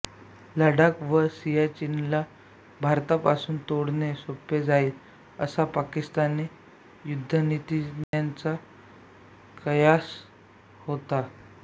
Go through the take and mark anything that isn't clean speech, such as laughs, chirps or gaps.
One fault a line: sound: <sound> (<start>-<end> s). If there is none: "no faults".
sound: dropout (8.0-8.1 s)